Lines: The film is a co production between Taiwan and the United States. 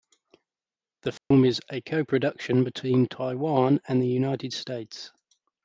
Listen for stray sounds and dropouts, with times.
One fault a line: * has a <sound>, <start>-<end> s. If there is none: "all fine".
* has a dropout, 1.2-1.3 s